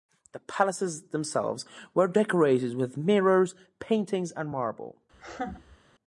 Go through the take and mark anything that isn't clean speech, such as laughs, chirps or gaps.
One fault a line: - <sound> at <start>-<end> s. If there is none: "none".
- laugh at 5.1-5.8 s